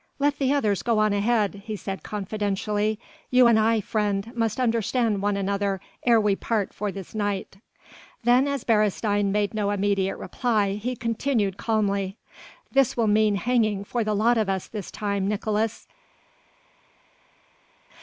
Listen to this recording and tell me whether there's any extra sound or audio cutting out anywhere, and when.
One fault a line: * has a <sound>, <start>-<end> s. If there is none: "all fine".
all fine